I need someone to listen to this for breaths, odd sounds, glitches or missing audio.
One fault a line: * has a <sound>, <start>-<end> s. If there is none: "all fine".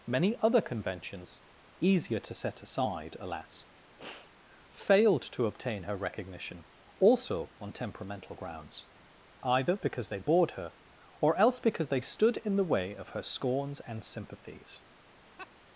* has a sniff, 4.0-4.3 s
* has a laugh, 15.4-15.5 s